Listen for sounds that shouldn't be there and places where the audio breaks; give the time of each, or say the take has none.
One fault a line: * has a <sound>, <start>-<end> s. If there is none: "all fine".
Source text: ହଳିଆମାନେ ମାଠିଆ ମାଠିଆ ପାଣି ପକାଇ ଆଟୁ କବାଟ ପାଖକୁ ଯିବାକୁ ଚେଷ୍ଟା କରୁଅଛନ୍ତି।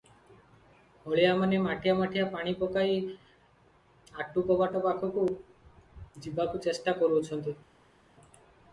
all fine